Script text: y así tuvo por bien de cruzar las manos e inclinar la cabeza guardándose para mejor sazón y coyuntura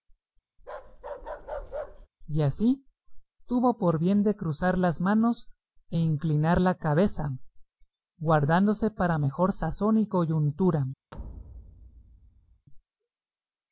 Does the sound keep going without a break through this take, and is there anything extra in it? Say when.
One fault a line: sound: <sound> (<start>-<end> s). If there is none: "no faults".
sound: bark (0.6-2.1 s)
sound: thud (11.1-12.7 s)